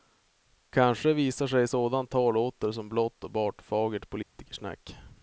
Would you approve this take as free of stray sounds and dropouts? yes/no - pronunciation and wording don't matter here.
no